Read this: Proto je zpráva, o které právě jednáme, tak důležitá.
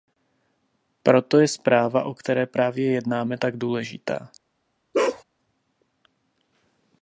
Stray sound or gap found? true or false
true